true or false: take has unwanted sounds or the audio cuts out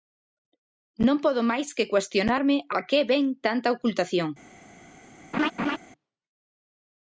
true